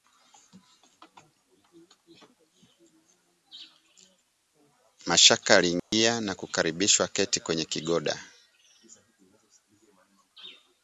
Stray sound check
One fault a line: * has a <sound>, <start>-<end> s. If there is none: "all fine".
* has a dropout, 5.8-5.9 s